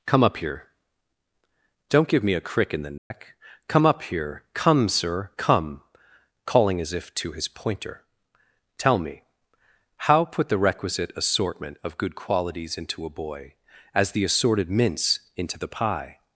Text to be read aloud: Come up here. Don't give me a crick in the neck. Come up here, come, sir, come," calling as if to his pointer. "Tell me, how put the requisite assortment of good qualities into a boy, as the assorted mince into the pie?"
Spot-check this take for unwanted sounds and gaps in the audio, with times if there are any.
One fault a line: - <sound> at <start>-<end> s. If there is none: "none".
- dropout at 3.0-3.1 s